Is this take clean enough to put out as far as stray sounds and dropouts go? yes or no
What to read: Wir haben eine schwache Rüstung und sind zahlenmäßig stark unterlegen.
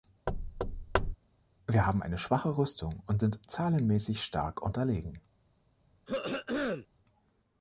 no